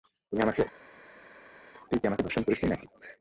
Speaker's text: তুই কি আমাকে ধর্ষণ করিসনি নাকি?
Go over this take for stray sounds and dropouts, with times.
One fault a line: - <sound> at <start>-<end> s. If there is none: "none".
none